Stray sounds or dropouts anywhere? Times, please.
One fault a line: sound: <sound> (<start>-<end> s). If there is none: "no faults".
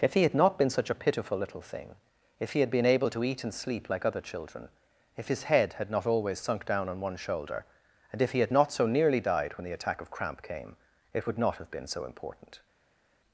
no faults